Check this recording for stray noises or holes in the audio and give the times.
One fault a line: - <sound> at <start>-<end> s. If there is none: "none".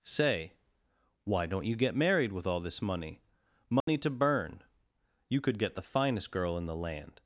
- dropout at 3.8-3.9 s